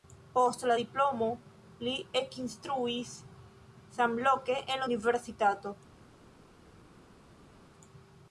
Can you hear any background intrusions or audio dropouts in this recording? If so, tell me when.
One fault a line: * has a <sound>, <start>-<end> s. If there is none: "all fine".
all fine